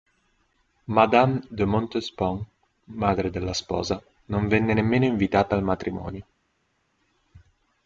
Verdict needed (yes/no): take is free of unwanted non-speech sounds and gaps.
yes